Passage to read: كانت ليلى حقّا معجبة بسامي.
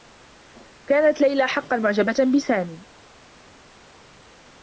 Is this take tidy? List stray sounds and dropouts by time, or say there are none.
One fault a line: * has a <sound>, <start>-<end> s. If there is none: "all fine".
all fine